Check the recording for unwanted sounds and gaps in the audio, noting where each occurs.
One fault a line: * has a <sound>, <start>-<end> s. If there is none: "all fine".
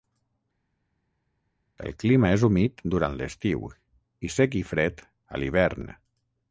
all fine